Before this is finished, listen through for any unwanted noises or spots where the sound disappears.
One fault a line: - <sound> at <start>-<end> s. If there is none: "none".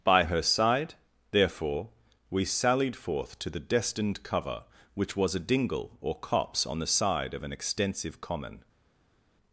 none